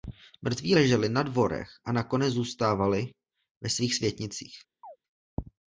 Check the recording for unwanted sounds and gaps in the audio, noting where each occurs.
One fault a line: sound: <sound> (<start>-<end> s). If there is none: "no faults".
sound: chirp (4.8-5.0 s)